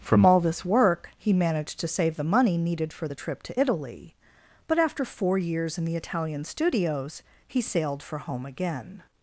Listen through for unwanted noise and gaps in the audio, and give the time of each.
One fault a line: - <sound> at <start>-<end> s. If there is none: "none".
none